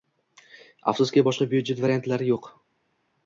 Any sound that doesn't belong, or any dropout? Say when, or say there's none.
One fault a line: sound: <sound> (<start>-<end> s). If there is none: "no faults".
no faults